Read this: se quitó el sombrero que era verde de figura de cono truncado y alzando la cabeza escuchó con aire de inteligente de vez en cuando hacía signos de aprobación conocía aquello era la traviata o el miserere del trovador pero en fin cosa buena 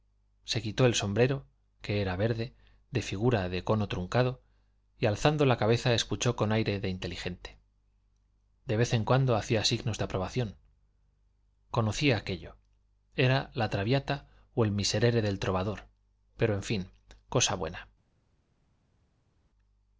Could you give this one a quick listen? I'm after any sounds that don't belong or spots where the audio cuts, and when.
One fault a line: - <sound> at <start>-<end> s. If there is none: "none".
none